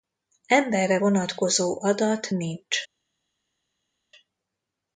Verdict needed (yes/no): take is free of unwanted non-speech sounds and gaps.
yes